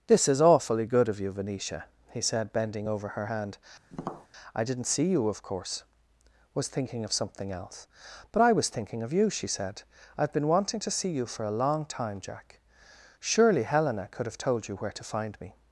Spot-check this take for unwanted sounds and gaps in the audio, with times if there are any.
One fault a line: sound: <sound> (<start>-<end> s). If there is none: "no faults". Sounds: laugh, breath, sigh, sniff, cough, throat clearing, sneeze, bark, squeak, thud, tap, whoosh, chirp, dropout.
sound: tap (3.9-4.3 s)